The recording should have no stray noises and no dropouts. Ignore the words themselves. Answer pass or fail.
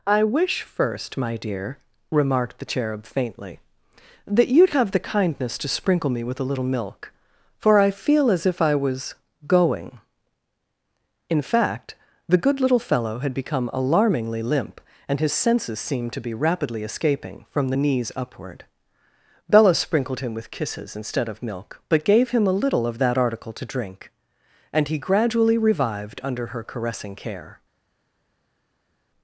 pass